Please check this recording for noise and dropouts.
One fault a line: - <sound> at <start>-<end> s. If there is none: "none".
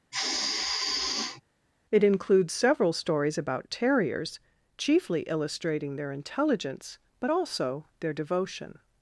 - sigh at 0.1-1.4 s